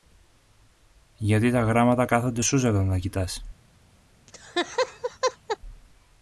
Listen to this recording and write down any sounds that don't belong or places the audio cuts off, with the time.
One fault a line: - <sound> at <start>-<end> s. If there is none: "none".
- laugh at 4.3-5.6 s